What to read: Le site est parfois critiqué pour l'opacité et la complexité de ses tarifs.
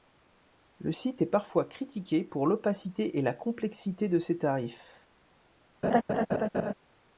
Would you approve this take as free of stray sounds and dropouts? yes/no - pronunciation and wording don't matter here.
no